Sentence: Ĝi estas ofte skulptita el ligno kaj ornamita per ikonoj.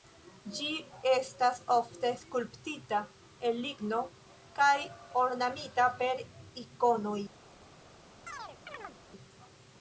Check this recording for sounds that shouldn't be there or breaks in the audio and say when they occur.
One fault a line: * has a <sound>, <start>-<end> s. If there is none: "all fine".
* has a chirp, 8.3-9.0 s